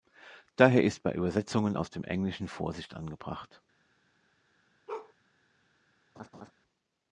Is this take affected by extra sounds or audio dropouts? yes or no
yes